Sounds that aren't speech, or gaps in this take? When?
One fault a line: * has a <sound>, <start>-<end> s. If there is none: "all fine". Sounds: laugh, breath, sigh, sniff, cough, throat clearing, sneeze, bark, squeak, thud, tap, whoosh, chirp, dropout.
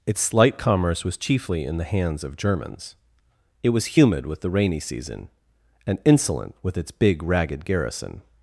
all fine